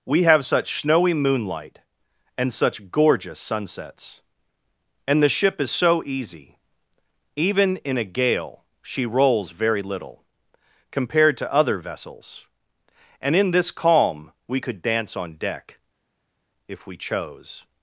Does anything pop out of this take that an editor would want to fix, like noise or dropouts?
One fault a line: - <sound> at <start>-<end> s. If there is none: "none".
none